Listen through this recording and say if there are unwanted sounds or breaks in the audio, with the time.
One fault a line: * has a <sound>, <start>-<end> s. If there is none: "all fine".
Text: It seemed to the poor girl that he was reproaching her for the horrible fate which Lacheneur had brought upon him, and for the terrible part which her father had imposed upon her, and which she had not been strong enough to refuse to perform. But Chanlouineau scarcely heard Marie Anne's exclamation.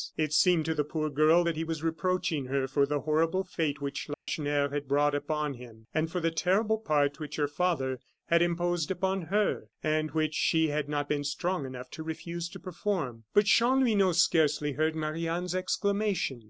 * has a dropout, 4.1-4.3 s